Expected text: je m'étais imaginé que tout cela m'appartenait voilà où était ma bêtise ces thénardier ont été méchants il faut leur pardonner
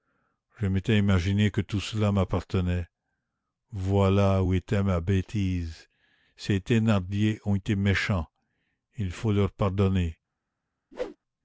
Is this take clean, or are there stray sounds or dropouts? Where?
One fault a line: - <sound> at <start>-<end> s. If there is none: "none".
- whoosh at 10.9-11.2 s